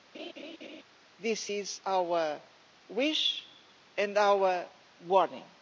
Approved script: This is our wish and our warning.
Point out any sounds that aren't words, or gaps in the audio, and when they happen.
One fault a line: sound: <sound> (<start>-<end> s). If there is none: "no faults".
sound: laugh (0.1-0.8 s)